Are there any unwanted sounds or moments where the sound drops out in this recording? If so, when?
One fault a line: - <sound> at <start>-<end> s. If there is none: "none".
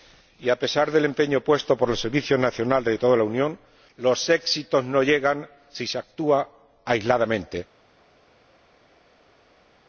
none